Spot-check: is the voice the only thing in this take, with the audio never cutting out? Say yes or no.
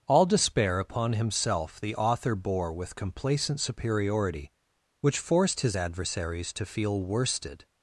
yes